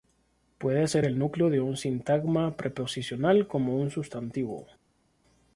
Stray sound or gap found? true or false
false